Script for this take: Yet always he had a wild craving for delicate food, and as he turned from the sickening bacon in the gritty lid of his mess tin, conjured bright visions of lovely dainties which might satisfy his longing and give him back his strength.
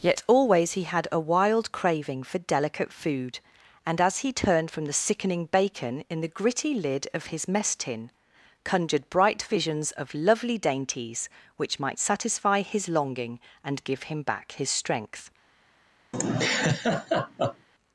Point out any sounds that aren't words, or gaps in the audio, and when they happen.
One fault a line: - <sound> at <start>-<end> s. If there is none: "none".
- laugh at 16.1-17.7 s